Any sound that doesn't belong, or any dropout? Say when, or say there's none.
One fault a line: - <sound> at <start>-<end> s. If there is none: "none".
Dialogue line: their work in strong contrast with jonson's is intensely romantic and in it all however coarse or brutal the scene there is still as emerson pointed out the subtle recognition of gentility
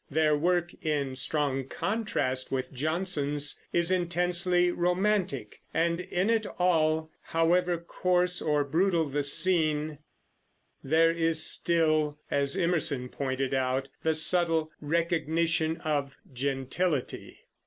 none